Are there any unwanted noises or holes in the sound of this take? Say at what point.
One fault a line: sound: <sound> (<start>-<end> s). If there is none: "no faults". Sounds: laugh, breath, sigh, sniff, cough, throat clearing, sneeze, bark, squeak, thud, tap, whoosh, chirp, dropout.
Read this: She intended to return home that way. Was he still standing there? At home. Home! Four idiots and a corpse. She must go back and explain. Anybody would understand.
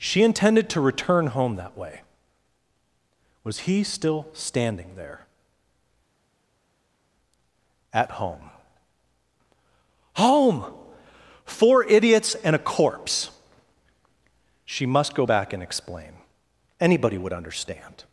no faults